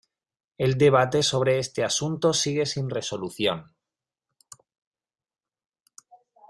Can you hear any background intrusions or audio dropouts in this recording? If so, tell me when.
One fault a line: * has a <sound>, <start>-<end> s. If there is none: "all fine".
all fine